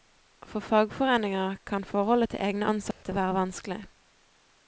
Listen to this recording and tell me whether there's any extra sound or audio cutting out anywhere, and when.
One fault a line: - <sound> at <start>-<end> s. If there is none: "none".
- dropout at 2.9-3.0 s